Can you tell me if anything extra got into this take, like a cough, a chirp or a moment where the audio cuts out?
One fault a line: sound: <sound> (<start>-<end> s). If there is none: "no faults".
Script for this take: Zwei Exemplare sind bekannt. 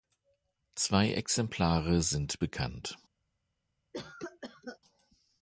sound: cough (3.9-4.8 s)